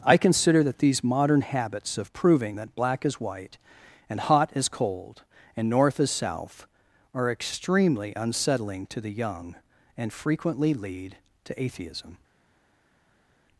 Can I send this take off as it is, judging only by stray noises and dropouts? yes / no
yes